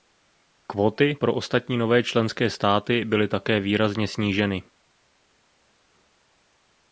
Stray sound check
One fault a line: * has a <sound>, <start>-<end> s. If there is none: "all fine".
all fine